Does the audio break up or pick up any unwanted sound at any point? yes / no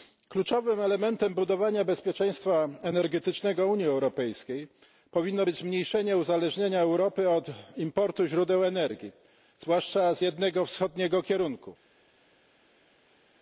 no